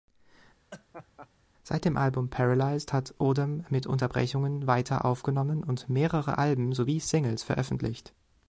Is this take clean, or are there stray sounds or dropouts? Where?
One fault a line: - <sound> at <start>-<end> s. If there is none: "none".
- laugh at 0.7-1.3 s